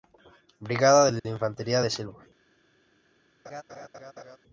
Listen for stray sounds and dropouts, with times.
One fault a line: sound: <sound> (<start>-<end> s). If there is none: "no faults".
sound: dropout (1.2-1.2 s)
sound: laugh (3.4-4.4 s)